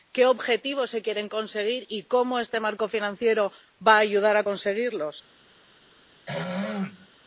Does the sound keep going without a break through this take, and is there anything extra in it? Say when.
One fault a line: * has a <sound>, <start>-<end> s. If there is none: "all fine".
* has a throat clearing, 6.3-7.1 s